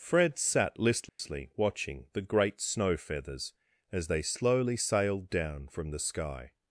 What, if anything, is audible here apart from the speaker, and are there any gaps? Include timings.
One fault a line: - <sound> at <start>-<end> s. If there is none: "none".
- dropout at 1.1-1.2 s